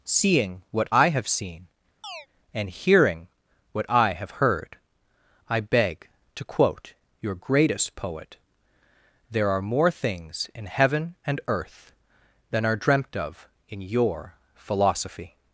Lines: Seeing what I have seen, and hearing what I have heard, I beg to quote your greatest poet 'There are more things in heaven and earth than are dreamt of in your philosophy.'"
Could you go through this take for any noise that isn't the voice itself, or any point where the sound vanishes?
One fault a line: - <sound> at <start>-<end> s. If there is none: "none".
- chirp at 2.0-2.3 s